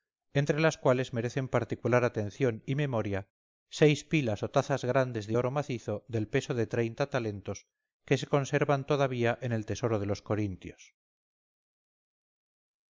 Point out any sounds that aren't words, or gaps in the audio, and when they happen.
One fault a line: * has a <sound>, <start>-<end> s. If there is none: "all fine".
all fine